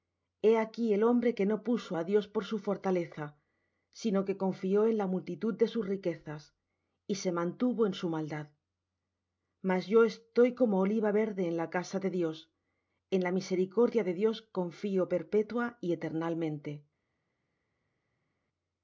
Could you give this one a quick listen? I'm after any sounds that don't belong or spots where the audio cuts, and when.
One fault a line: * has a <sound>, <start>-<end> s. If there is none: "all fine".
all fine